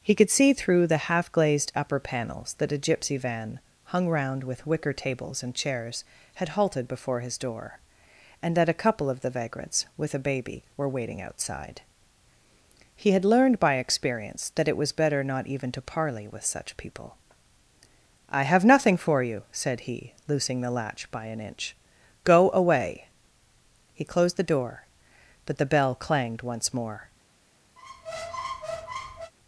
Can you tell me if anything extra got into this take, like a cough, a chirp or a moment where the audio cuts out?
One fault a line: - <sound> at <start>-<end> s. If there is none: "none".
- squeak at 27.8-29.3 s